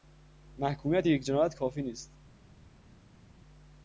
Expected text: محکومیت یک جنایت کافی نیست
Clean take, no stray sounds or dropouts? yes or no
yes